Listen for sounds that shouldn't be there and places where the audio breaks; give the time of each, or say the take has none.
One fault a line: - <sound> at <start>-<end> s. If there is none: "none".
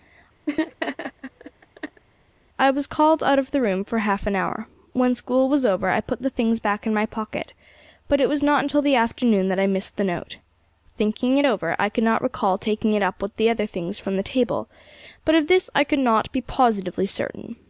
- laugh at 0.5-2.0 s